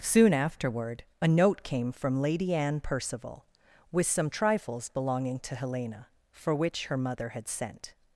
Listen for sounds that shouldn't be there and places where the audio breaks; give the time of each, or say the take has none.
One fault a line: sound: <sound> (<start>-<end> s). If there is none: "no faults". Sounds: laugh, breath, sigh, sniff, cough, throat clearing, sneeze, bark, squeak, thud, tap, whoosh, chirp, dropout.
no faults